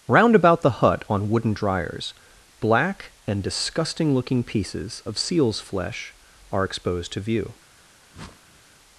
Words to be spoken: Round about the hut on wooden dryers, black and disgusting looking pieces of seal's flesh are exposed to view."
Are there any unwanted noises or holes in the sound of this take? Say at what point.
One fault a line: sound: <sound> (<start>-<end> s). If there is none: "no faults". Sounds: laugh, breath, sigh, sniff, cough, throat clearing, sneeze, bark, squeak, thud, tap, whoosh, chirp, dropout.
sound: whoosh (8.1-8.6 s)